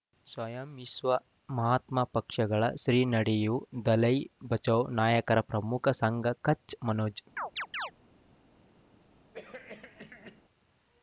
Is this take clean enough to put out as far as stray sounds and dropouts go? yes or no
no